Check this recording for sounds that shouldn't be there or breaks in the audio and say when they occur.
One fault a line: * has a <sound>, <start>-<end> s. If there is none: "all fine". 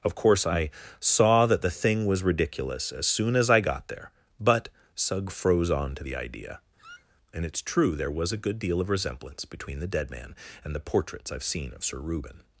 * has a squeak, 6.8-7.2 s